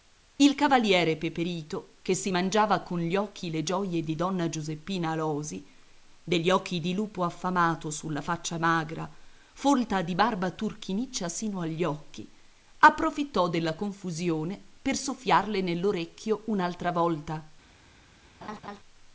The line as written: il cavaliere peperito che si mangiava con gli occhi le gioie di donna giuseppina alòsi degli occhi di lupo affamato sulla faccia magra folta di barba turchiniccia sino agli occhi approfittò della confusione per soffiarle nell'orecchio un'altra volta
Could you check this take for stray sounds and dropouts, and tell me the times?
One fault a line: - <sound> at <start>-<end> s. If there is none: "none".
- laugh at 18.4-18.8 s